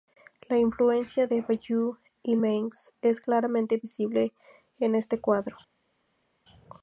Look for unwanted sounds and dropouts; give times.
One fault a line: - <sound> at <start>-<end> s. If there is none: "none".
none